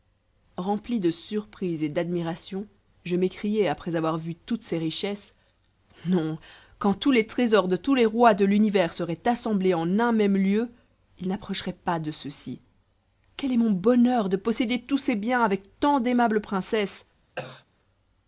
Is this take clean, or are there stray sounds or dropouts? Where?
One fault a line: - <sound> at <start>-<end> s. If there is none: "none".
- cough at 17.4-17.7 s